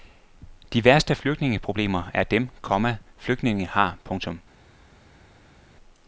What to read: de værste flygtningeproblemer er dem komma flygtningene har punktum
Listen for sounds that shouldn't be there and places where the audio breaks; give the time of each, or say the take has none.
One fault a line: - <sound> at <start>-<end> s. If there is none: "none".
none